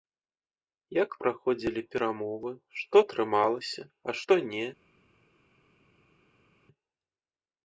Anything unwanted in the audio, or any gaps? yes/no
no